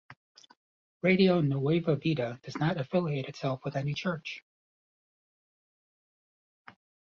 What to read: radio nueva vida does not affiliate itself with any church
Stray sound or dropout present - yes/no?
no